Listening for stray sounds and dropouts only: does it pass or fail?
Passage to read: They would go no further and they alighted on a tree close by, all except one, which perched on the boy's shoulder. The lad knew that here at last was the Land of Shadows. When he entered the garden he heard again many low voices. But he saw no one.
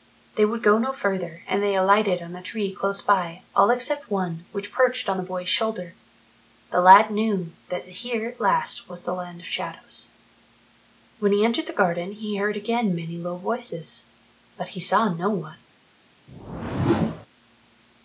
fail